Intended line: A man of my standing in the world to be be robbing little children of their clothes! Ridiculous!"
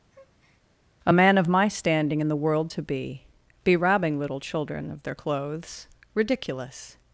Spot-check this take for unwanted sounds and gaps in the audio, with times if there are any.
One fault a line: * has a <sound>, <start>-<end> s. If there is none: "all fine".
* has a breath, 0.1-0.6 s